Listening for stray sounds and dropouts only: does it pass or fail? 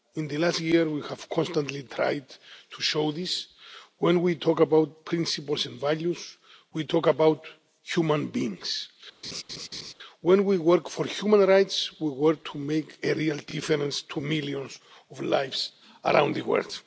fail